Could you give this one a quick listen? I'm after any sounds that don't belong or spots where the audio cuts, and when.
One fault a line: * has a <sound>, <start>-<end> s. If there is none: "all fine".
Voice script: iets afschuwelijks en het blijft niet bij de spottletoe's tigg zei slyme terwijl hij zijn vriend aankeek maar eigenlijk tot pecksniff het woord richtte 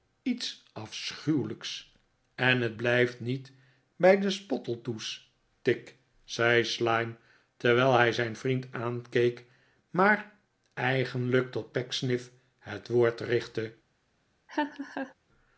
* has a laugh, 14.5-15.1 s